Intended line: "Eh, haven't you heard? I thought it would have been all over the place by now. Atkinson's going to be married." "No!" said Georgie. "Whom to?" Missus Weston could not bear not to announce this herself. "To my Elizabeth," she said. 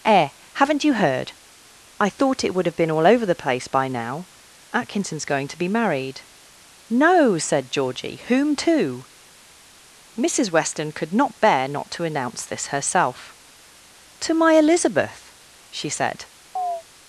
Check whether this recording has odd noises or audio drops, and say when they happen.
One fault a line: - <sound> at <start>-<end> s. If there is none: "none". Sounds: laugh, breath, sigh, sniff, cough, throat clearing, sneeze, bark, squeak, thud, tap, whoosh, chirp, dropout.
- chirp at 16.6-16.8 s